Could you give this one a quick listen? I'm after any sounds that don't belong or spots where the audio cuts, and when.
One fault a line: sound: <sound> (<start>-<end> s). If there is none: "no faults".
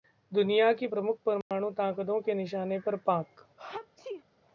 sound: dropout (1.4-1.5 s)
sound: sneeze (3.6-4.2 s)